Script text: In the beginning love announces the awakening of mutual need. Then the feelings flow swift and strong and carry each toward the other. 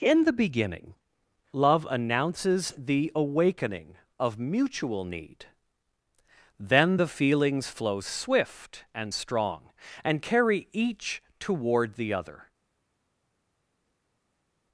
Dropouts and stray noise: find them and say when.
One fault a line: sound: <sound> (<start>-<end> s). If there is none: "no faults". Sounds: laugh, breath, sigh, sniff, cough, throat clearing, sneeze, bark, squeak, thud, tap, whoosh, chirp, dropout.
no faults